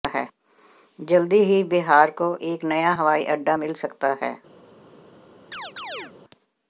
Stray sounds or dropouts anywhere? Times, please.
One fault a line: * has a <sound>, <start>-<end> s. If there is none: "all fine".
* has a chirp, 5.5-6.1 s